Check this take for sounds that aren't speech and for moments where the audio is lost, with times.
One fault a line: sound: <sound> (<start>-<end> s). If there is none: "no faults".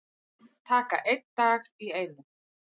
no faults